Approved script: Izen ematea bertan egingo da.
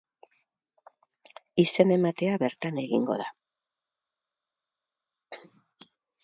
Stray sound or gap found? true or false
false